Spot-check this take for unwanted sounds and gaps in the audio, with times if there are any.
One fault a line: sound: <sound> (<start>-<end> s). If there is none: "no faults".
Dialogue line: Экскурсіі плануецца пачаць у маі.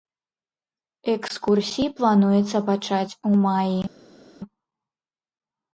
no faults